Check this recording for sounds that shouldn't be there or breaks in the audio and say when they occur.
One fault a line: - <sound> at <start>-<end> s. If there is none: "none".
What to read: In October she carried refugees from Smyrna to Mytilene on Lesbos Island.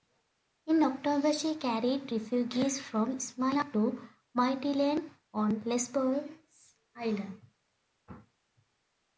none